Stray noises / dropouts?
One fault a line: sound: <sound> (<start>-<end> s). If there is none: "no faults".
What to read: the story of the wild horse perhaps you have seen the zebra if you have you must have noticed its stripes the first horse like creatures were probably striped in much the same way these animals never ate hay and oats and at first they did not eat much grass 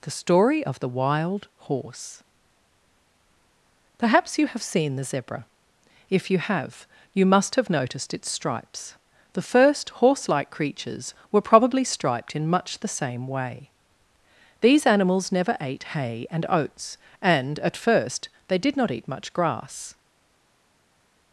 no faults